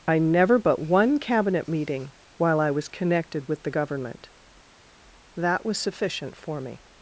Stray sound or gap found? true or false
false